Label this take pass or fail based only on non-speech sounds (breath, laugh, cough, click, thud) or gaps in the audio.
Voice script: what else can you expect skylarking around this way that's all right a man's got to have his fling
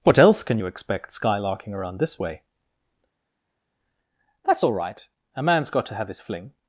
pass